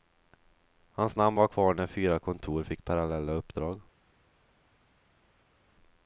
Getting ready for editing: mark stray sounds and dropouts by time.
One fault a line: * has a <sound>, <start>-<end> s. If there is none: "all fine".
all fine